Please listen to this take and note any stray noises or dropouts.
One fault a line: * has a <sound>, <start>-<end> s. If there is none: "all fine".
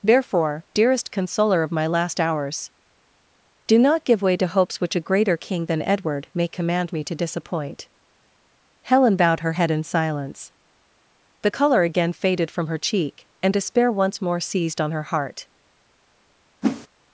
* has a whoosh, 16.6-16.9 s